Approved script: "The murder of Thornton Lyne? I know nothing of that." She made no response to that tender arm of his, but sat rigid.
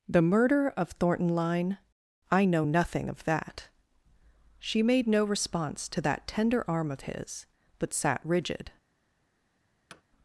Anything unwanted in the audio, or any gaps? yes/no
yes